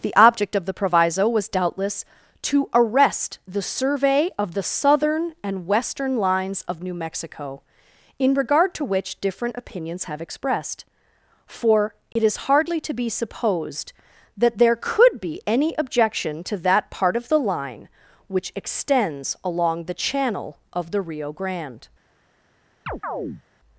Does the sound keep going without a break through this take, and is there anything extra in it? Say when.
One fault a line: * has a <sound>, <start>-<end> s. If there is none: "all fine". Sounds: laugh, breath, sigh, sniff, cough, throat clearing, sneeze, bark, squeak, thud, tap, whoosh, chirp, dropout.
* has a dropout, 12.1-12.2 s
* has a chirp, 22.9-23.4 s